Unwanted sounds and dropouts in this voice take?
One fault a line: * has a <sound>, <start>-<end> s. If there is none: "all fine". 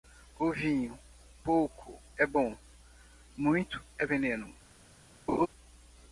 * has a laugh, 5.3-5.5 s